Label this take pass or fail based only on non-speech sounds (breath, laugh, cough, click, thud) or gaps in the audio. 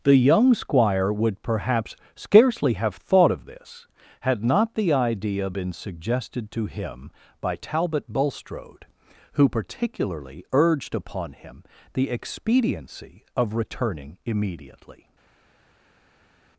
pass